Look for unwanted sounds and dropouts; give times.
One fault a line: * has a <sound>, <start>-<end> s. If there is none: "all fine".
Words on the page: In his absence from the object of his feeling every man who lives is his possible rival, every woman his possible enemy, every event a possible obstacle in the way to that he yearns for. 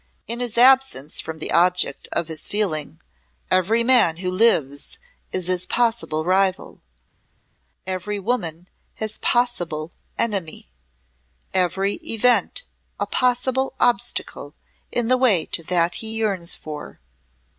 all fine